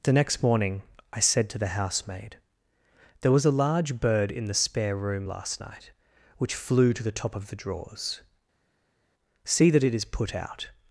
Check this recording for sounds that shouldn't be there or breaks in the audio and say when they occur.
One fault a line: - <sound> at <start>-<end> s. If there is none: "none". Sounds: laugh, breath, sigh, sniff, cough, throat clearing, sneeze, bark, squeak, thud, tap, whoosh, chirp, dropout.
none